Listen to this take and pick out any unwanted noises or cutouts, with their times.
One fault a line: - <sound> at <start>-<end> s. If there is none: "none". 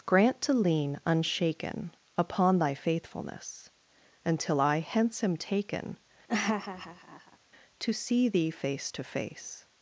- laugh at 6.3-7.4 s